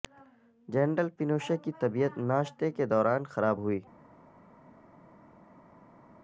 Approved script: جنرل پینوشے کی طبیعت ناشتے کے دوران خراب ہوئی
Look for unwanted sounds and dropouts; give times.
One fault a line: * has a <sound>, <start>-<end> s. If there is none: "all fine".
all fine